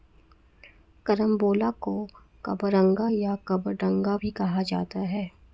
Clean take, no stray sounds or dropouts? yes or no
yes